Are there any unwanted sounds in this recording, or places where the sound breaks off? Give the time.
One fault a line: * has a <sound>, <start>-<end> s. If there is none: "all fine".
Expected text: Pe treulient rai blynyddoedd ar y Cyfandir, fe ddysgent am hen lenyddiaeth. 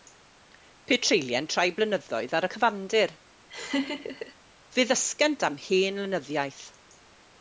* has a laugh, 3.5-4.3 s